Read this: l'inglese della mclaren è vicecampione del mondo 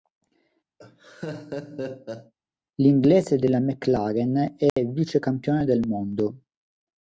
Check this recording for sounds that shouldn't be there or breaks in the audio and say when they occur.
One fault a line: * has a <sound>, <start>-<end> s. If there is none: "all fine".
* has a laugh, 0.8-2.3 s
* has a dropout, 4.7-4.8 s